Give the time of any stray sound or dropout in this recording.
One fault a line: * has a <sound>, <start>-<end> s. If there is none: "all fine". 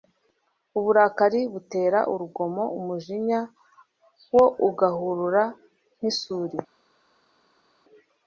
all fine